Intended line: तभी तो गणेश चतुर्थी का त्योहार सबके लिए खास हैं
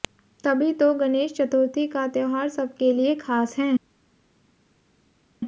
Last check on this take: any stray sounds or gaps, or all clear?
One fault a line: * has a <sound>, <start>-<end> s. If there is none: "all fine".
all fine